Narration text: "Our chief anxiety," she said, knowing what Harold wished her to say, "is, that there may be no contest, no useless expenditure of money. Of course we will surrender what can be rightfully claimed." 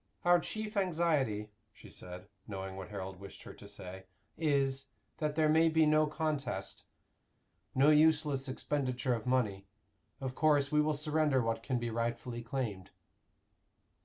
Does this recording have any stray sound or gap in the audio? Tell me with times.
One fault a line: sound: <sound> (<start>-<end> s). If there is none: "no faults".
no faults